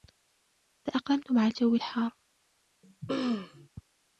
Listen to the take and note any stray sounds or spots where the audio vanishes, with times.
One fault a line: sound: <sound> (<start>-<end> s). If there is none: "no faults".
sound: throat clearing (2.8-3.7 s)